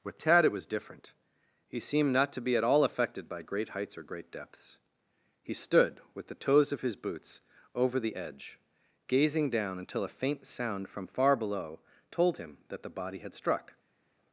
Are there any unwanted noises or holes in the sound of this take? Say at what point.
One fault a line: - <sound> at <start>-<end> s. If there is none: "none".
none